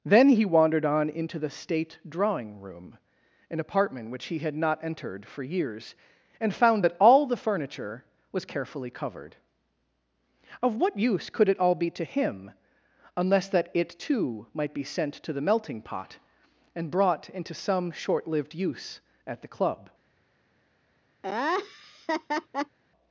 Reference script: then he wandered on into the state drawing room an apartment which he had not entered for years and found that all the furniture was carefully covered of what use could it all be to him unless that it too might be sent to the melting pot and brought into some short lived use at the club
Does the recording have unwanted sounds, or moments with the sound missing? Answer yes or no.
yes